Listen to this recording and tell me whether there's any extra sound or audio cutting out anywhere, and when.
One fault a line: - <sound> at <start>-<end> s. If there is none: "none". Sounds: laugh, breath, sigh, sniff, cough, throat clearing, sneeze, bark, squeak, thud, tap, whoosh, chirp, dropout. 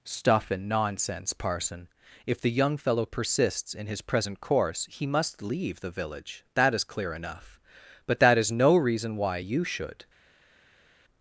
none